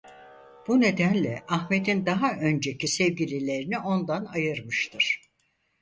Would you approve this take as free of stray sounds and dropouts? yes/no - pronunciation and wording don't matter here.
yes